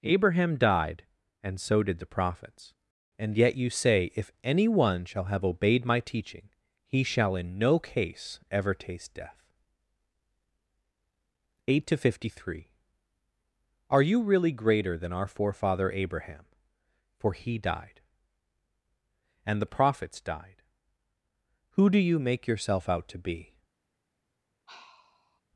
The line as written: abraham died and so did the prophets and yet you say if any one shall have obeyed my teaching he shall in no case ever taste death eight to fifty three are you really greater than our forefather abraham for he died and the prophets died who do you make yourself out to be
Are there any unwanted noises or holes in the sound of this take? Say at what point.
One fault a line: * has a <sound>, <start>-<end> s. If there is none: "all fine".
* has a sigh, 24.7-25.4 s